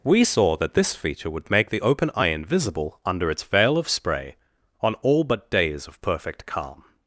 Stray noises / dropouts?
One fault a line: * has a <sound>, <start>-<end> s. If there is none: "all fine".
all fine